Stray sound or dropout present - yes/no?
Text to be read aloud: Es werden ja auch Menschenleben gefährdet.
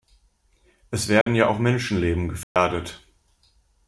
yes